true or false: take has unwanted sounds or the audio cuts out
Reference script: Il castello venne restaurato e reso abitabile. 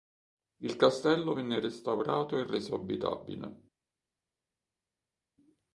false